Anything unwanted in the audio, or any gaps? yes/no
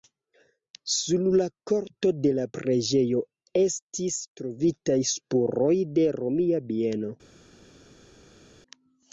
no